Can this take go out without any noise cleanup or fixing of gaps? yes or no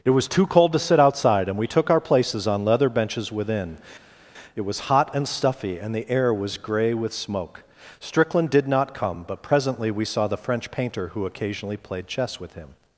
yes